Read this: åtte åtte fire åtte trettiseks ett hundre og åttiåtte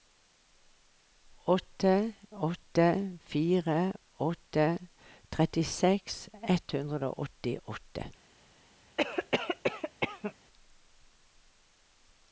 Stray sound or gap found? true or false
true